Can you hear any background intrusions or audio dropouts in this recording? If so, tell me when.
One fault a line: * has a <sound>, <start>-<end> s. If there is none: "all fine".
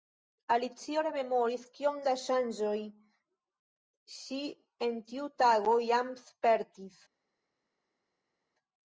all fine